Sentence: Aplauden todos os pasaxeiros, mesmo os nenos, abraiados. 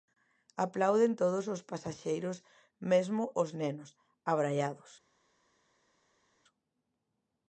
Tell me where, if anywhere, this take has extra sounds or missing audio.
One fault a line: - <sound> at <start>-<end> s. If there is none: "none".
none